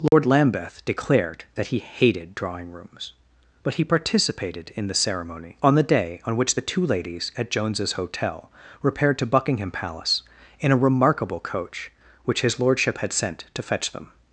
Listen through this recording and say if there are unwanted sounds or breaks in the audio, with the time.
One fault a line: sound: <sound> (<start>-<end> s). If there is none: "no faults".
sound: dropout (0.1-0.1 s)